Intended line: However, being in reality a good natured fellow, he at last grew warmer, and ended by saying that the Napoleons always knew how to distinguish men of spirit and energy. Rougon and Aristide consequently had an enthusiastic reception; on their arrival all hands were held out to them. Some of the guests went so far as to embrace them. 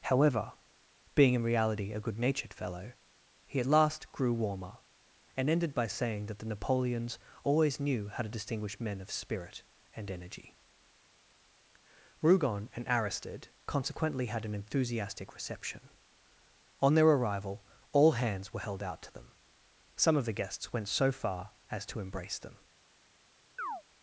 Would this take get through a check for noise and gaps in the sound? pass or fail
fail